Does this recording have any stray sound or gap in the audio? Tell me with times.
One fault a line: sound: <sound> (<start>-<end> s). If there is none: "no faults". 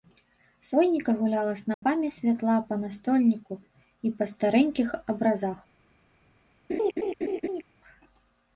sound: dropout (1.7-1.8 s)
sound: laugh (6.7-7.6 s)